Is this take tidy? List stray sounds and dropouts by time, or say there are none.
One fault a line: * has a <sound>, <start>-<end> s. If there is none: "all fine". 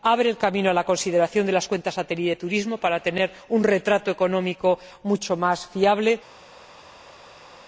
all fine